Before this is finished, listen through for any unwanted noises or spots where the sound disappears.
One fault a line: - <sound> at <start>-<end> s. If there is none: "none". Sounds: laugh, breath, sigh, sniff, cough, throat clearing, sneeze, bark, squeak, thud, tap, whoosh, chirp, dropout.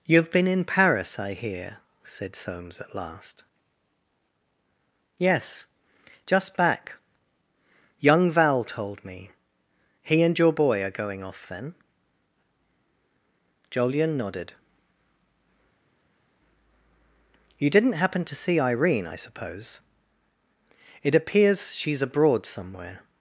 none